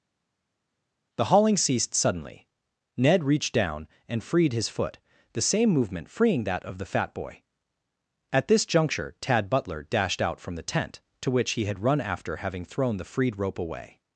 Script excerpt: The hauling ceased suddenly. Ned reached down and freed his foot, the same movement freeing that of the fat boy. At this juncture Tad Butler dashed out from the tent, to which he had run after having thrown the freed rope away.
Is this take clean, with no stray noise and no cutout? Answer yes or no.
yes